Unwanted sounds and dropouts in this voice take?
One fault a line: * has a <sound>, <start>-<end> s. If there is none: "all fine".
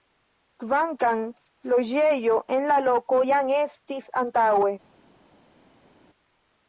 all fine